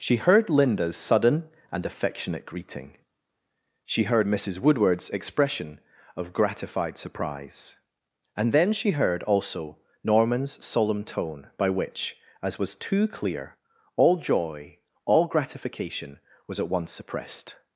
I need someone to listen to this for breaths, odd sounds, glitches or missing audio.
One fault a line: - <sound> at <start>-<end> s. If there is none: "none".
none